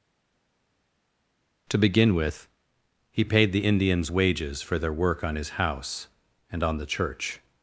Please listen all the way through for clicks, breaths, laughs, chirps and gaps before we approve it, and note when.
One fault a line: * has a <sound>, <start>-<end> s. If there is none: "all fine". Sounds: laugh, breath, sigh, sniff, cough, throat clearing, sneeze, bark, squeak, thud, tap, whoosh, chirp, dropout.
all fine